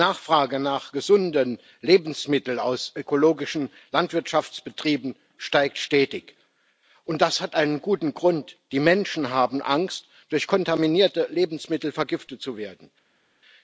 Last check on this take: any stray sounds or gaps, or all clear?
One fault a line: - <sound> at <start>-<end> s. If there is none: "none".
none